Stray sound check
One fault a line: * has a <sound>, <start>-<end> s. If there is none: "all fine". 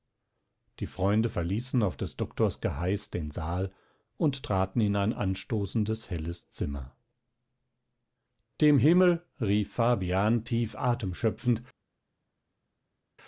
all fine